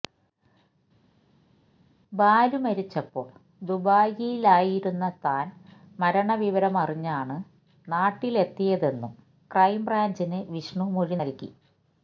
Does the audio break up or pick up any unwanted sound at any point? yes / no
no